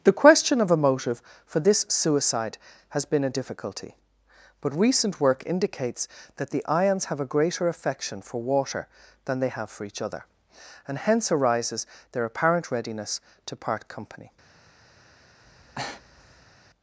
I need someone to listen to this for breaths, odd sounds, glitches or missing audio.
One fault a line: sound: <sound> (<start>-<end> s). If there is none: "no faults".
sound: breath (15.4-16.5 s)